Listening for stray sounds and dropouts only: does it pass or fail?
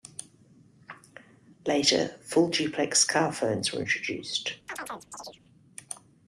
fail